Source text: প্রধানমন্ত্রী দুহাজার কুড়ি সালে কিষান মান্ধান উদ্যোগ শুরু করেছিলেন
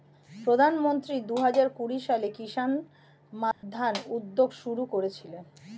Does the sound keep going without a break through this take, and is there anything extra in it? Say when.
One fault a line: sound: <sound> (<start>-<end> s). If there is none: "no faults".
sound: dropout (3.5-3.6 s)